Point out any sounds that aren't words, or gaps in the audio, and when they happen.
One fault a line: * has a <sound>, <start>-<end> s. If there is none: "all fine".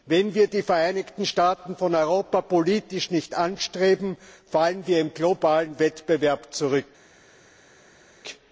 all fine